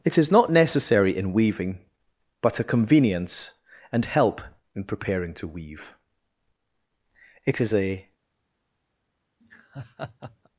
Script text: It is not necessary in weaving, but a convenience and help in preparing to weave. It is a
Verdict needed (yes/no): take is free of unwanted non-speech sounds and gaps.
no